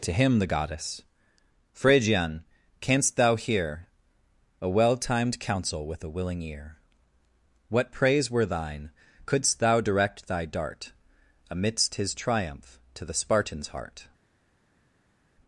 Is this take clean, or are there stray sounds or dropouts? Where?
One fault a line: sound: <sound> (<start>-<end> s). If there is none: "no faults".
no faults